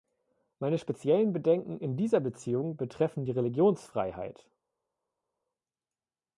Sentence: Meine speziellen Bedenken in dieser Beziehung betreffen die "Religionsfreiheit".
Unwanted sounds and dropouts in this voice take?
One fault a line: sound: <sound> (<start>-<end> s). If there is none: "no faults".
no faults